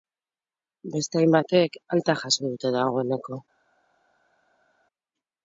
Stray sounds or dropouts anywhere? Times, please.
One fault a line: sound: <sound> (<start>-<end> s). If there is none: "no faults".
no faults